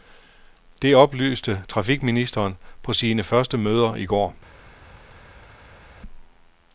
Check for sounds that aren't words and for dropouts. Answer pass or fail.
pass